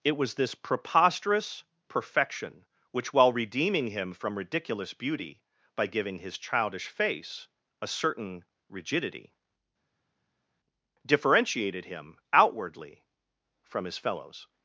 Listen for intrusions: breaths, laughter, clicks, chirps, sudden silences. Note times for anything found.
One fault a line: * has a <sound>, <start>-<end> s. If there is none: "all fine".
all fine